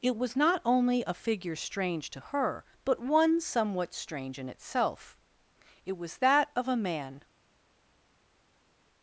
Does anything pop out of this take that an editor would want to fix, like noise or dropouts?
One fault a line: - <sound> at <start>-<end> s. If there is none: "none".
none